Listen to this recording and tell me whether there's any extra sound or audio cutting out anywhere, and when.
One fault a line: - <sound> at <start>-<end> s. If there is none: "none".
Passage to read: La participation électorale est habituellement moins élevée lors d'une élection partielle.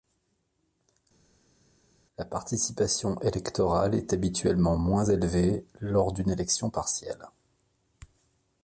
none